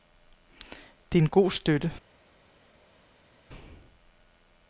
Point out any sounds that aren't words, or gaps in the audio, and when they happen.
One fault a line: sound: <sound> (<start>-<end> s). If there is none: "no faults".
no faults